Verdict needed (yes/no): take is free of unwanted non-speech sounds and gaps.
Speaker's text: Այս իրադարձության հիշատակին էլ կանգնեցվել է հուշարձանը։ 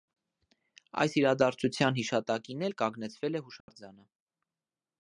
no